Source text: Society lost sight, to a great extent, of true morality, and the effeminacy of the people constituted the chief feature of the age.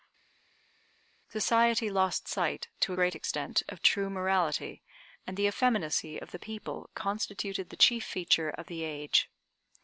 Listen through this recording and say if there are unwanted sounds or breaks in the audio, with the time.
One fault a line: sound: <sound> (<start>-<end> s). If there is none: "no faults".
no faults